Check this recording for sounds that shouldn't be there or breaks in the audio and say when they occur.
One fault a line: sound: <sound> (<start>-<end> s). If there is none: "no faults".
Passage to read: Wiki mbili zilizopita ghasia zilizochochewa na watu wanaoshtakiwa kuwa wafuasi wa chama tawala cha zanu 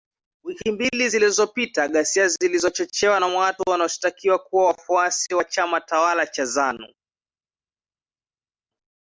no faults